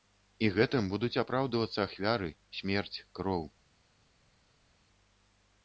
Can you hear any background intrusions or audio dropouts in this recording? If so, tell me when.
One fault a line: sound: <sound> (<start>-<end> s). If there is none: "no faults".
no faults